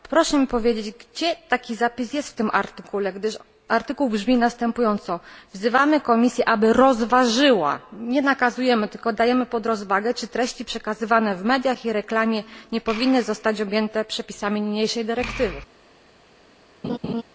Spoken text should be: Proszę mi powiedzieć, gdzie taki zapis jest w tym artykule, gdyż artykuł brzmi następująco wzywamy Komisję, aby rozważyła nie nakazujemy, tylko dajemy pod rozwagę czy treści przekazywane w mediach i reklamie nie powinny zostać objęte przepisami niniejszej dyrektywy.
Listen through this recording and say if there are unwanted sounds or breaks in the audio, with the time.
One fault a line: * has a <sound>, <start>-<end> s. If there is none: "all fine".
* has a laugh, 16.8-17.2 s